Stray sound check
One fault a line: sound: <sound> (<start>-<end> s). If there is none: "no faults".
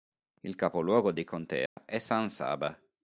sound: dropout (1.7-1.8 s)